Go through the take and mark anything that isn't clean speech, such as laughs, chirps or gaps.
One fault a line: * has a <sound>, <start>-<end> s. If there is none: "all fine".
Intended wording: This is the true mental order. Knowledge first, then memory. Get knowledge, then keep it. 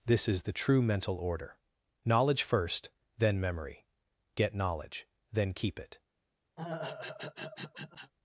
* has a throat clearing, 6.6-8.1 s